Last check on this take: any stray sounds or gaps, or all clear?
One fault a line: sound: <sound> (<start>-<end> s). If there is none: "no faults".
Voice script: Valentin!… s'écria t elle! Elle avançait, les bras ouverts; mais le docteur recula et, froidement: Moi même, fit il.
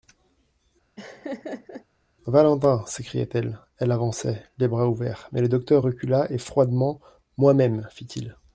sound: laugh (1.0-1.8 s)